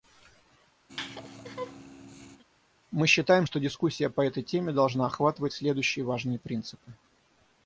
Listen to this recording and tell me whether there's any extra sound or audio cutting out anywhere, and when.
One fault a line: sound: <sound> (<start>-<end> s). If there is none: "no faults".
sound: laugh (0.9-2.4 s)